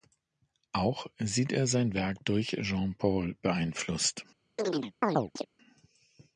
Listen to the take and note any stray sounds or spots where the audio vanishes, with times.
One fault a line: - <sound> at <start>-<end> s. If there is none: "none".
- chirp at 4.6-5.5 s